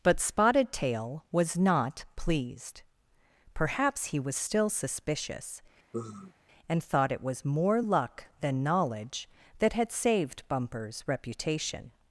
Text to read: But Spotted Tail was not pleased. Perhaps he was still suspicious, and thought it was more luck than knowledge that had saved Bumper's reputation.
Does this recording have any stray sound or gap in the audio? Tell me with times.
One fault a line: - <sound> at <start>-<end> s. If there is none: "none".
- sigh at 5.9-6.3 s